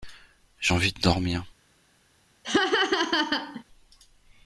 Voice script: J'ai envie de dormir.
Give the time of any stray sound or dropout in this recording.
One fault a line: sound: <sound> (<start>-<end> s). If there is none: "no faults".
sound: laugh (2.4-3.6 s)